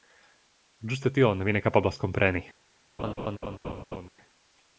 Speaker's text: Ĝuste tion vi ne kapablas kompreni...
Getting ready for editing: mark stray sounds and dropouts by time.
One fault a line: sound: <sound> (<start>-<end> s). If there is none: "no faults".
sound: laugh (3.0-4.1 s)